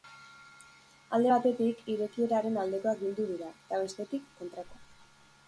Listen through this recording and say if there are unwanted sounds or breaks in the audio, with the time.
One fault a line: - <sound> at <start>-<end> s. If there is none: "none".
none